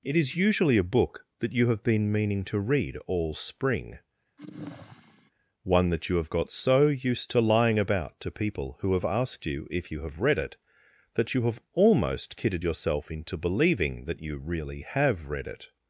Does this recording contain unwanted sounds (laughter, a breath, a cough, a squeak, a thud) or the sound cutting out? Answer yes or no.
yes